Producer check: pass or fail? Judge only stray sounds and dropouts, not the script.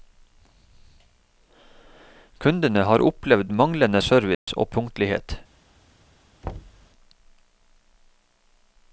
fail